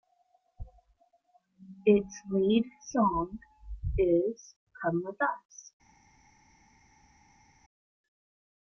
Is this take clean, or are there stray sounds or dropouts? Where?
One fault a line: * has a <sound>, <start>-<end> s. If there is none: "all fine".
all fine